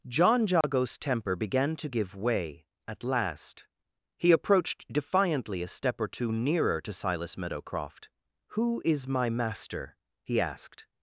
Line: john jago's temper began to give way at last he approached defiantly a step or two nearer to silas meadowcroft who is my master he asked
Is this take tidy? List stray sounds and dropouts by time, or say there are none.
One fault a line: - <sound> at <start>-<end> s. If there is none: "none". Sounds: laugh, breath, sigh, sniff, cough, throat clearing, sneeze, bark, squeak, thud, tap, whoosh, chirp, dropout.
- dropout at 0.6-0.6 s